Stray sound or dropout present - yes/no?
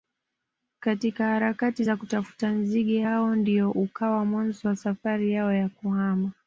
no